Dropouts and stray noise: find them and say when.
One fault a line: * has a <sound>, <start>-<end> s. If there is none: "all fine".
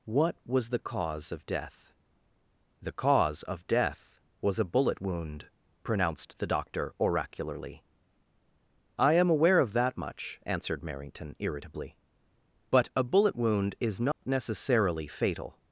* has a dropout, 14.1-14.2 s